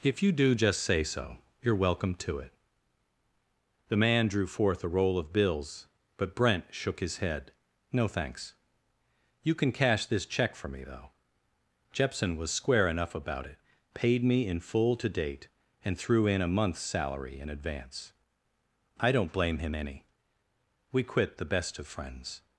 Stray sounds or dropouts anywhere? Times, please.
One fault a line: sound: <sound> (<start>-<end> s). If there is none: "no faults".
no faults